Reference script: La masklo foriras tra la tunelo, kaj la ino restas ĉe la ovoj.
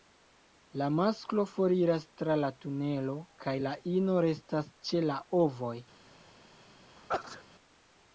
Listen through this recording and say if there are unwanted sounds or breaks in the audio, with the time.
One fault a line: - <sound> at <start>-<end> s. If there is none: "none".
- sneeze at 7.0-7.4 s